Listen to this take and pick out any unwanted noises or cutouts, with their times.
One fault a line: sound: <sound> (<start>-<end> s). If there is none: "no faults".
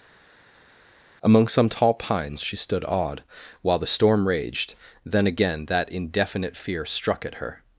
no faults